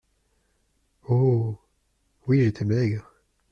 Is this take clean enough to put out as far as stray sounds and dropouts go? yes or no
yes